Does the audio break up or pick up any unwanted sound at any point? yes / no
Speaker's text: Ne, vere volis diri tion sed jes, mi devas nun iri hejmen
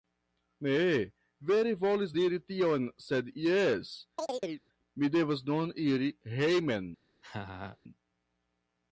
yes